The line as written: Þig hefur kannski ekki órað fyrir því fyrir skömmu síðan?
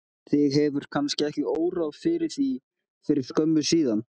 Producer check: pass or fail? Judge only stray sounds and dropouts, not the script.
pass